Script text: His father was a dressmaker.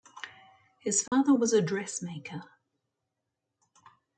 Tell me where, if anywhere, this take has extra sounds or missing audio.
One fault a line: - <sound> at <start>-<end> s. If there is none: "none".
- dropout at 1.1-1.1 s